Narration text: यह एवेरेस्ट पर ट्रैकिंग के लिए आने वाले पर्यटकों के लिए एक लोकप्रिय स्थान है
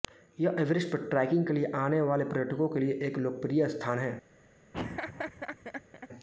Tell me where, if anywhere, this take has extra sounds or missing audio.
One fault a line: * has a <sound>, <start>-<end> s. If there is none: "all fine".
* has a laugh, 4.7-6.1 s